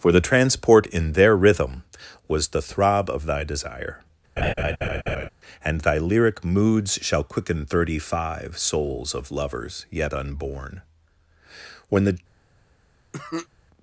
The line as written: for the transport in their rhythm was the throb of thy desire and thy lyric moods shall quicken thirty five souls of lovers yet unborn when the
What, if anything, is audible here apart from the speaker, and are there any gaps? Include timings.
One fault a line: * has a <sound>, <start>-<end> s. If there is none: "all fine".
* has a laugh, 4.4-5.3 s
* has a cough, 13.1-13.5 s